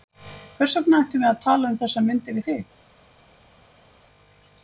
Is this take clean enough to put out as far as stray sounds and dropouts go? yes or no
yes